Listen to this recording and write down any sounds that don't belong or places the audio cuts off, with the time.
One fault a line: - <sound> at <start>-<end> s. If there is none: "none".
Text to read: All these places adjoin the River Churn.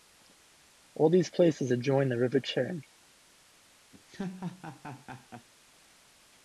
- laugh at 3.9-5.5 s